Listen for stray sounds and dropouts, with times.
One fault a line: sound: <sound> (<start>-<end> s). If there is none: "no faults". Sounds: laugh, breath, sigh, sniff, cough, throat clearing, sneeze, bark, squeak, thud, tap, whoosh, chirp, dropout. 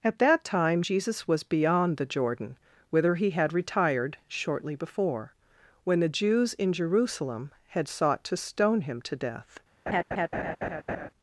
sound: laugh (9.9-11.1 s)